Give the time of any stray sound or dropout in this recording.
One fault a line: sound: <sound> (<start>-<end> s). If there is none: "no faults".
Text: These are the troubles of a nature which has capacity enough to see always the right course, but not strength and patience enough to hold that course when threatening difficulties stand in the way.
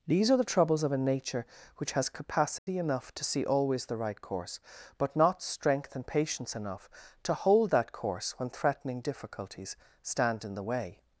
sound: dropout (2.6-2.7 s)